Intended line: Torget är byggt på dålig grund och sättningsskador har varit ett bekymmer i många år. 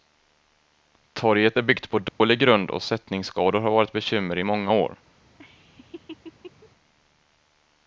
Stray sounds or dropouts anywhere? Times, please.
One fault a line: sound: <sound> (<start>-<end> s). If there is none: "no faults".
sound: dropout (2.1-2.2 s)
sound: laugh (5.4-6.7 s)